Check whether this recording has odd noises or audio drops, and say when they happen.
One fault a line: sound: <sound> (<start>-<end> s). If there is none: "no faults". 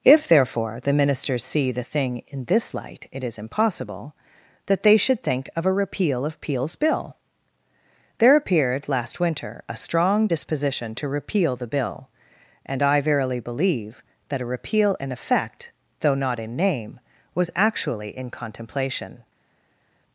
no faults